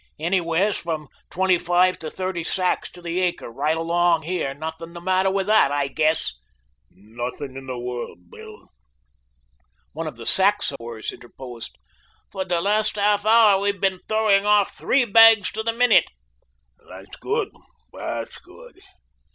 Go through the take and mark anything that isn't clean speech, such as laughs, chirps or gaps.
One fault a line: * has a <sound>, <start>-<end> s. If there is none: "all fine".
* has a dropout, 10.8-10.8 s